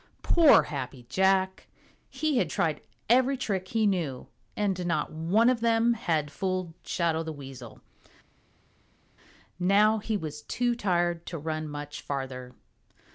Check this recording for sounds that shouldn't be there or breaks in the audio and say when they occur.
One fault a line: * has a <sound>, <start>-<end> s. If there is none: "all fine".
all fine